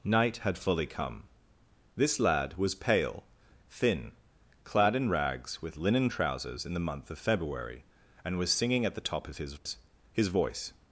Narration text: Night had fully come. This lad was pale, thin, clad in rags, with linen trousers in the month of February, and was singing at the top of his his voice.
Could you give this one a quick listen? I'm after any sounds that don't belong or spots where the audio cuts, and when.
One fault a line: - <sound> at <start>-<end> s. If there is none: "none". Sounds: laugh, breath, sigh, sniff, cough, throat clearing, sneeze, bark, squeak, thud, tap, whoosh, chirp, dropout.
none